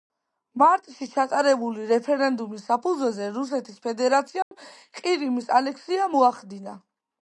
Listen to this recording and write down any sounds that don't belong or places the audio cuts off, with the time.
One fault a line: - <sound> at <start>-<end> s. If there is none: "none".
- dropout at 4.4-4.5 s